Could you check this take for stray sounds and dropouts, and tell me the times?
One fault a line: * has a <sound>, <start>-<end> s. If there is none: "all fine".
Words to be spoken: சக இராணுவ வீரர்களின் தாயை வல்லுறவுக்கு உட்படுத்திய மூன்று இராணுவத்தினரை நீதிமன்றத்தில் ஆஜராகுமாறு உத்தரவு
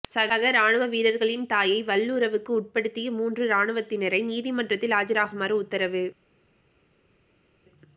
all fine